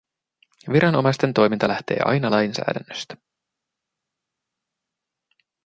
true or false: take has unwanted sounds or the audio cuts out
false